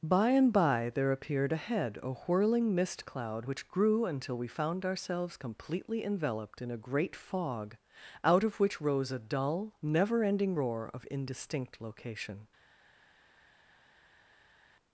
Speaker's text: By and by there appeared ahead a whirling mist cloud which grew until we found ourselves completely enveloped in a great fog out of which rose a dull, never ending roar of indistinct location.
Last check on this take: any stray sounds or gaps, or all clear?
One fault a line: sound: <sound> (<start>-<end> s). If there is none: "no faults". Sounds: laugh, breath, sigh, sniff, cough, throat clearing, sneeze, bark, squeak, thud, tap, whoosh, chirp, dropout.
no faults